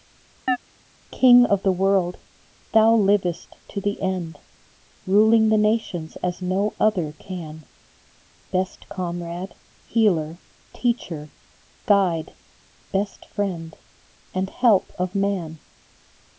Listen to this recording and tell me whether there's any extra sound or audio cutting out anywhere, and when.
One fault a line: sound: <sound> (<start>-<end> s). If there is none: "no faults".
sound: chirp (0.5-0.6 s)